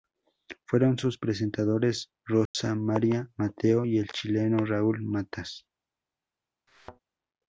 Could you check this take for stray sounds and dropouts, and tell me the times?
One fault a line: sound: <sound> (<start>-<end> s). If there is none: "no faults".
sound: dropout (2.5-2.5 s)
sound: thud (6.7-7.0 s)